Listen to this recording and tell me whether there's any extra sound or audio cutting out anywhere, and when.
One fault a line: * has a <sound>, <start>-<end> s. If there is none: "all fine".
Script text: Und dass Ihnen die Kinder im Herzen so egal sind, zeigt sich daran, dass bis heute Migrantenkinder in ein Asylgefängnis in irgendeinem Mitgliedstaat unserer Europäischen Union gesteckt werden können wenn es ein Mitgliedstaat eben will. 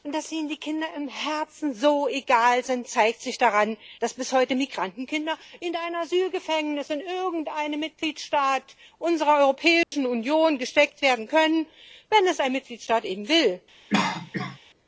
* has a dropout, 9.8-9.9 s
* has a cough, 13.9-14.6 s